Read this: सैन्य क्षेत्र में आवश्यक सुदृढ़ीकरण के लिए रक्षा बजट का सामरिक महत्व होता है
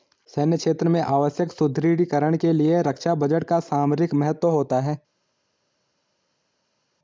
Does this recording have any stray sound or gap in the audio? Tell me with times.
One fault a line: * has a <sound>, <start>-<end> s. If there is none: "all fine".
all fine